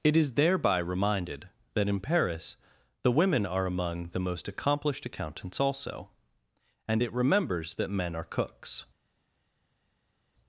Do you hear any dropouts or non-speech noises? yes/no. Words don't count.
no